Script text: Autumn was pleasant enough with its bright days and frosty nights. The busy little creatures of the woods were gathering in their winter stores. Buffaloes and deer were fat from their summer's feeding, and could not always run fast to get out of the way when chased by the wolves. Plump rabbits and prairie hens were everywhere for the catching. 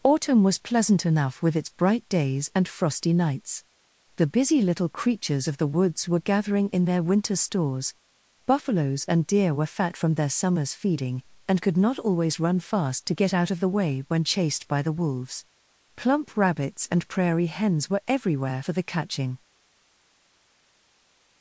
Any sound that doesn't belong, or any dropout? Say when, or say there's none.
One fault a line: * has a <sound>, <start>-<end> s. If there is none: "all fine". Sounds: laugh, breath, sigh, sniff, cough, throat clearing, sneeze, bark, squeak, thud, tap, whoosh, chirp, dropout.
all fine